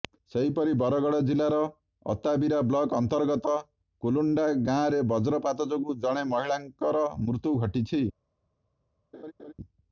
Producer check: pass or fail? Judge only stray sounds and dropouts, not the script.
fail